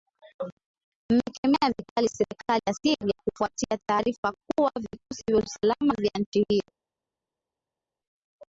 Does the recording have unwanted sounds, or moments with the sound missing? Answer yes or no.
no